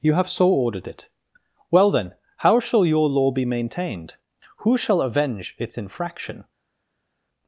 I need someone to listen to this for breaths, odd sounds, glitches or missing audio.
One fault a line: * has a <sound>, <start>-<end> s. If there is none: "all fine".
all fine